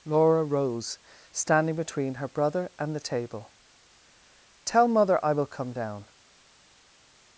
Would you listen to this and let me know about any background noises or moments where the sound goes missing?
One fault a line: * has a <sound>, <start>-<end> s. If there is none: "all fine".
all fine